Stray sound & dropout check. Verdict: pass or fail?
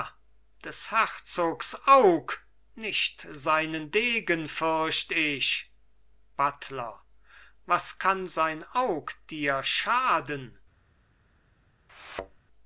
fail